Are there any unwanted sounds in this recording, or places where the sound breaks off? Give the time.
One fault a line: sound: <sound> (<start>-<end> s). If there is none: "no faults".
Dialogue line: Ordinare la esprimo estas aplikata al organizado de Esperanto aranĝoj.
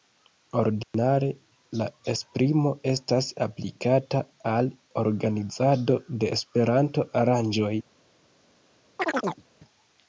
sound: dropout (0.8-0.9 s)
sound: chirp (9.0-9.4 s)